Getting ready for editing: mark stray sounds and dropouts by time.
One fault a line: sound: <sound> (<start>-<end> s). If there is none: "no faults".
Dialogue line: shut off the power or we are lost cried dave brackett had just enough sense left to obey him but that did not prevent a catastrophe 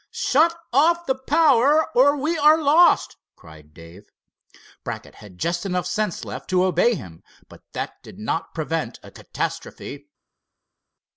no faults